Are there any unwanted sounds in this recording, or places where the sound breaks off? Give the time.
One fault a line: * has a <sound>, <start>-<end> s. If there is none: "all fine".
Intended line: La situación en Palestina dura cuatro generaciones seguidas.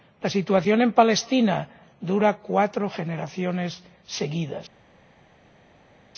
all fine